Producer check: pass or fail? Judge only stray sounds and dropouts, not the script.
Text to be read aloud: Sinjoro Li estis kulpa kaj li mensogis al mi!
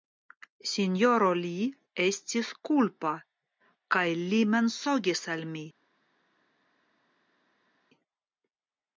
pass